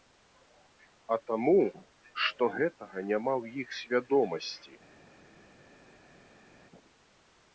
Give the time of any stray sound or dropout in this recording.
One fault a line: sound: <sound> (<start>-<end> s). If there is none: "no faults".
no faults